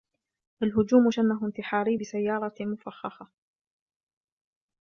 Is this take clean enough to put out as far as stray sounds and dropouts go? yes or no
yes